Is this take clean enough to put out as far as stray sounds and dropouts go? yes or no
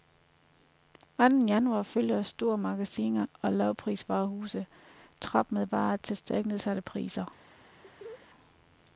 no